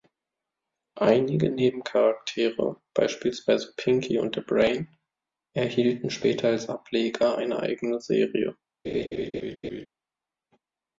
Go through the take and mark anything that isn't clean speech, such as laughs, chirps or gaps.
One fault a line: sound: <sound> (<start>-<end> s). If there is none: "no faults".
sound: laugh (8.8-9.9 s)